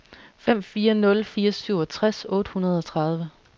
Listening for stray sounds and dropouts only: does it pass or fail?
pass